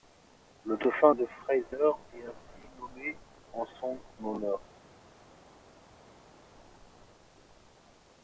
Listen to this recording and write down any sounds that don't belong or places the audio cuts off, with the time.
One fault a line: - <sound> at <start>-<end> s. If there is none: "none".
none